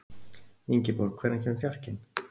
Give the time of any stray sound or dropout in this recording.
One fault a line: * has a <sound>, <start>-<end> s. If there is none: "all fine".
all fine